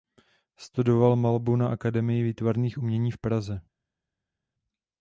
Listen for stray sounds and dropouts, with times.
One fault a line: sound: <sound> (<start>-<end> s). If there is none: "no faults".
no faults